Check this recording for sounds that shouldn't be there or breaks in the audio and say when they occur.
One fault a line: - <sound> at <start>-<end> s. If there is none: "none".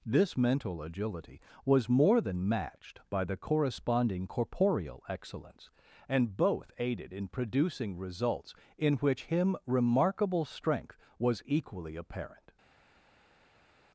none